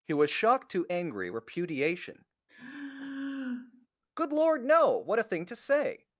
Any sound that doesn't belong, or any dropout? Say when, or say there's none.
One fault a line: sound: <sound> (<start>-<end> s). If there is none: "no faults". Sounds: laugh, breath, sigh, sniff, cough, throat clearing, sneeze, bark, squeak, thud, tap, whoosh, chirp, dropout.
sound: sigh (2.5-3.9 s)